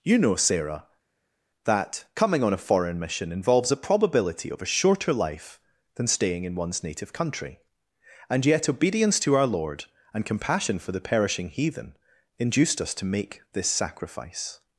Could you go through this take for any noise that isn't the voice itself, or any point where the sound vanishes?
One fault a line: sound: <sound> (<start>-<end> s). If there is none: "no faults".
no faults